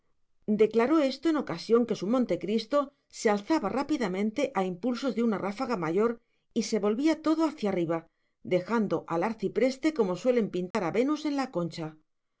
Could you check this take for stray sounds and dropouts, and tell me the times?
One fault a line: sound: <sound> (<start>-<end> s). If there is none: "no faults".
sound: dropout (10.7-10.7 s)